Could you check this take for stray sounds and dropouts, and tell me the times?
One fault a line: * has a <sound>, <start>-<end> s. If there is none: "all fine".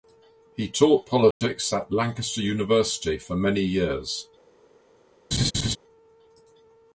* has a dropout, 1.3-1.4 s
* has a laugh, 5.3-5.8 s